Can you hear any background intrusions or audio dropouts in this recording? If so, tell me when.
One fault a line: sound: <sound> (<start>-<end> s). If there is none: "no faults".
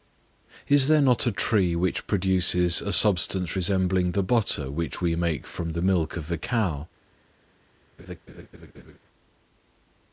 sound: laugh (8.0-9.0 s)